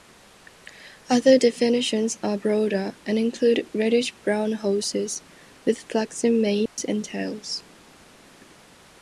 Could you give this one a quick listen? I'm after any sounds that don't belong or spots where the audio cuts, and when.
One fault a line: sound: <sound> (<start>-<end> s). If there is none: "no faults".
sound: dropout (6.7-6.8 s)